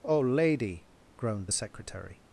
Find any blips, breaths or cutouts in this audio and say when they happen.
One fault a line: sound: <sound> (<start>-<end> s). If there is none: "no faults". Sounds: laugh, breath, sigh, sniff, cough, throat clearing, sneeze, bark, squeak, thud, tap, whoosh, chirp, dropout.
no faults